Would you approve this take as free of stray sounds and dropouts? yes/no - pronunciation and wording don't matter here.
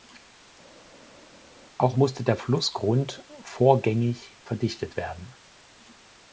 yes